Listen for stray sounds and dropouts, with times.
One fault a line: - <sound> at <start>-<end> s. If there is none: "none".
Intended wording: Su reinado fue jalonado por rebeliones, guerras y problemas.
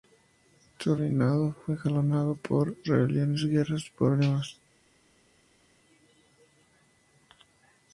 none